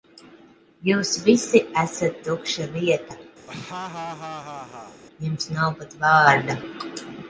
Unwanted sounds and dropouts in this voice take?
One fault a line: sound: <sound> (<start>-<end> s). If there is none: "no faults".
sound: laugh (3.5-5.0 s)